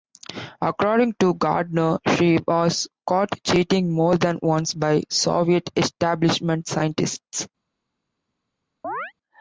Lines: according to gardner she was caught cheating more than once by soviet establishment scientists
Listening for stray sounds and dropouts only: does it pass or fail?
fail